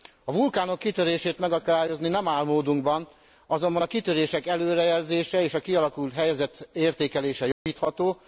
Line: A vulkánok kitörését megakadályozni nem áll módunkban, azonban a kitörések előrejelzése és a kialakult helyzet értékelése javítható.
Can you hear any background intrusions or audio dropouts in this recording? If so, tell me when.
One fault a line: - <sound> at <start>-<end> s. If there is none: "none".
- dropout at 7.5-7.7 s